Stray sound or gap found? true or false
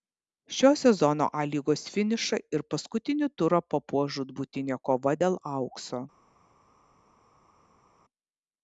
false